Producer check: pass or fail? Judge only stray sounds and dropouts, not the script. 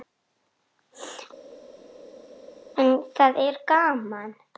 pass